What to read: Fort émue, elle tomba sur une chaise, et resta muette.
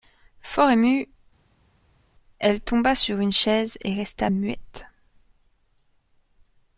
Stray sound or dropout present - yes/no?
no